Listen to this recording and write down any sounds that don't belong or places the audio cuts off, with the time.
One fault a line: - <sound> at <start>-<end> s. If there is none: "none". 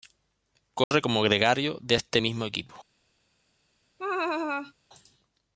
- dropout at 0.8-0.9 s
- laugh at 4.0-4.7 s